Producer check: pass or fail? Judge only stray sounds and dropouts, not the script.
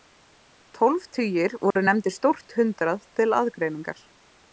fail